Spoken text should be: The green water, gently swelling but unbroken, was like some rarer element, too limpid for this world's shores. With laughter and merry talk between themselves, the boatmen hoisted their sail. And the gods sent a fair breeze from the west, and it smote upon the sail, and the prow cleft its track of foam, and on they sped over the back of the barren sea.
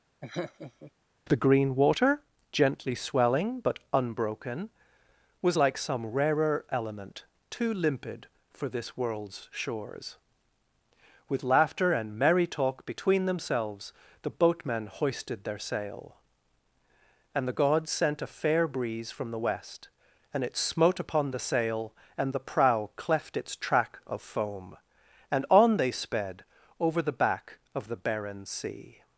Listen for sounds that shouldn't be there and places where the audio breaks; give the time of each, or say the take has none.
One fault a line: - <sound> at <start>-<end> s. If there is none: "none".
- laugh at 0.2-0.9 s